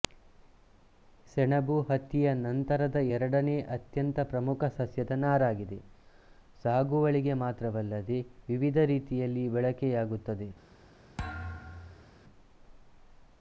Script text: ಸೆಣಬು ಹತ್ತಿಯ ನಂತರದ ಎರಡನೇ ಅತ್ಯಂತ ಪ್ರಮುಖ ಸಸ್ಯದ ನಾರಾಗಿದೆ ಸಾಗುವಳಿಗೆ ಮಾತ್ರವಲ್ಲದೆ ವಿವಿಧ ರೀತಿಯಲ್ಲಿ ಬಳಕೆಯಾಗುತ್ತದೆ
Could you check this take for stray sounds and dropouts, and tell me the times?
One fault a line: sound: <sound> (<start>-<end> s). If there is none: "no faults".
sound: thud (11.2-12.1 s)